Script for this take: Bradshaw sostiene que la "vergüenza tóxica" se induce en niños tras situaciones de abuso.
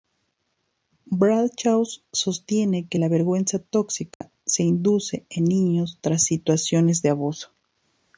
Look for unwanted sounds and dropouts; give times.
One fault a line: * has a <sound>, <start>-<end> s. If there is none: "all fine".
* has a dropout, 4.1-4.2 s